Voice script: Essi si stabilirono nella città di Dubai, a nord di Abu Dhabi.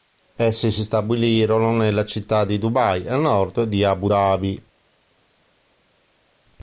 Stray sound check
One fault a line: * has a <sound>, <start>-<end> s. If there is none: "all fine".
all fine